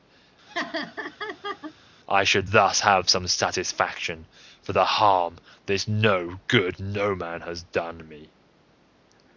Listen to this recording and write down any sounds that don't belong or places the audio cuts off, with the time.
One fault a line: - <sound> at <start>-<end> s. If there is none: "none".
- laugh at 0.5-1.7 s